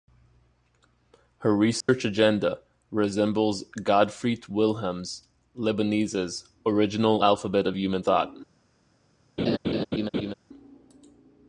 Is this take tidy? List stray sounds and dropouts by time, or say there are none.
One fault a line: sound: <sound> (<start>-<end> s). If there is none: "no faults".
sound: dropout (1.8-1.9 s)
sound: laugh (9.4-10.3 s)